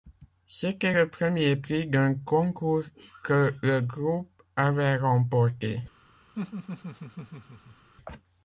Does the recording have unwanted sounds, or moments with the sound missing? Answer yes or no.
yes